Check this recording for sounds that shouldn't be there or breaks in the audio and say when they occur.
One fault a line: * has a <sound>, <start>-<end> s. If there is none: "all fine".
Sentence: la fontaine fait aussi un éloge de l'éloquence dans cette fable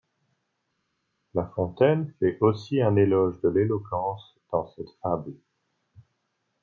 all fine